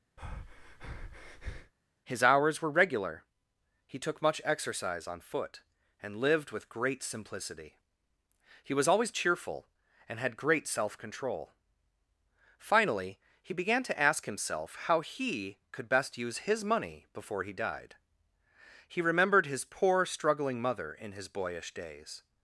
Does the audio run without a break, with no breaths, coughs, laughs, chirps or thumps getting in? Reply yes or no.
no